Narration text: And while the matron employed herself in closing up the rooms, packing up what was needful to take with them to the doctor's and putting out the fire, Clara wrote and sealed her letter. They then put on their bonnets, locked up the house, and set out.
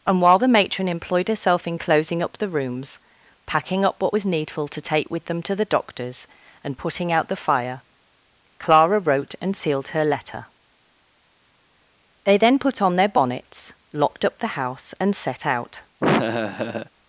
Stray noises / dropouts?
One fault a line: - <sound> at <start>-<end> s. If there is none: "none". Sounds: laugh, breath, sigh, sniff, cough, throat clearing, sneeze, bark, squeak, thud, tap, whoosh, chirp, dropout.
- laugh at 16.0-16.9 s